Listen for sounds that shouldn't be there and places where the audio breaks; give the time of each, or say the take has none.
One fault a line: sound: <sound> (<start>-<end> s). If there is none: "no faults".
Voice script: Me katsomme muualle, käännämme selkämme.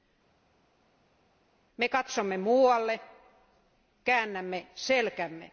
no faults